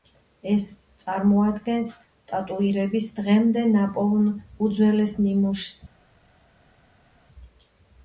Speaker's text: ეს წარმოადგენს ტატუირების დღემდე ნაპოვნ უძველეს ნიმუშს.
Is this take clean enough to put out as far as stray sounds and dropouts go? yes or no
yes